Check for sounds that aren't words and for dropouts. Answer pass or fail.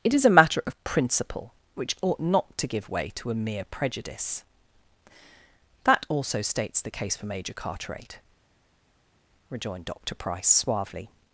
pass